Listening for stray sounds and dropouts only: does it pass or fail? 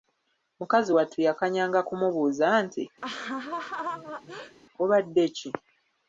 fail